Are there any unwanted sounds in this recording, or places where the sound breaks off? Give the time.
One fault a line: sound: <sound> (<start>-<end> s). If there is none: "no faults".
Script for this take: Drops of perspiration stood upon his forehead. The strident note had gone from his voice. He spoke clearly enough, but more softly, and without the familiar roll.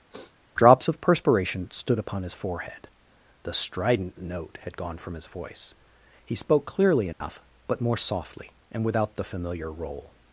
sound: sniff (0.1-0.4 s)
sound: dropout (7.1-7.2 s)